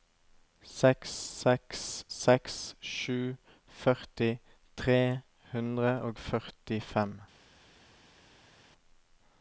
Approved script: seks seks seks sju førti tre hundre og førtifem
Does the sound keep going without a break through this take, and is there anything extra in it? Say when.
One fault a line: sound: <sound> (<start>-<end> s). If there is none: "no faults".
no faults